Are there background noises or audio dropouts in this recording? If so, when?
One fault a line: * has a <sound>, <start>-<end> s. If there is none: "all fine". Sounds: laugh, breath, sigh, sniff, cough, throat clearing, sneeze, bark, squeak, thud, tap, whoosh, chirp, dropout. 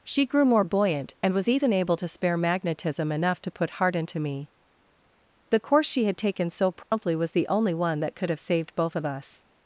* has a dropout, 6.8-6.9 s